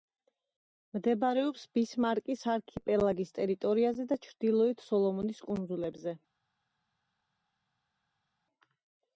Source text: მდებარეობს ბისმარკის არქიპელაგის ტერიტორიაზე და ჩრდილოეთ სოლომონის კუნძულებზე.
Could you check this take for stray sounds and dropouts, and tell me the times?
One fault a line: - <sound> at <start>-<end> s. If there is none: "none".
none